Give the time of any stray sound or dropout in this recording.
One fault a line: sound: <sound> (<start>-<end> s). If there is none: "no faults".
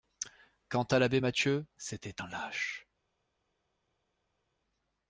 no faults